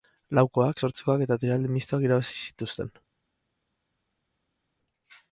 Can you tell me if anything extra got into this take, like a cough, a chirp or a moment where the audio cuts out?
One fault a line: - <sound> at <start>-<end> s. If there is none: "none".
none